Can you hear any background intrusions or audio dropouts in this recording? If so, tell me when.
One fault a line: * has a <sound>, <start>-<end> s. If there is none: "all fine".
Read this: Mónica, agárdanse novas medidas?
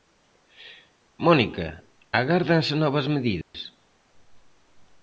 * has a dropout, 3.4-3.5 s